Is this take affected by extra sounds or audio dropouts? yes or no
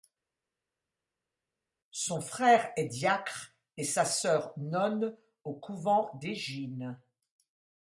no